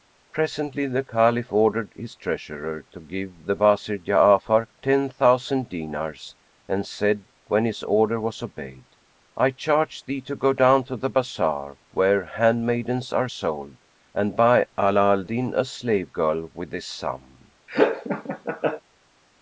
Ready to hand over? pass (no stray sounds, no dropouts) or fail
fail